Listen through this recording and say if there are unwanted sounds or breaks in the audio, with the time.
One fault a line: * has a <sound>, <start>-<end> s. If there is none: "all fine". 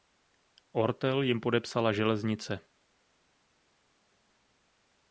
all fine